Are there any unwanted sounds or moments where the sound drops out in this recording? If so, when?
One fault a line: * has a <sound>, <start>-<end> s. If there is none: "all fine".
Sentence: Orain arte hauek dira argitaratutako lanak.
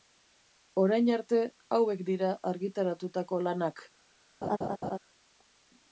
* has a laugh, 4.4-5.0 s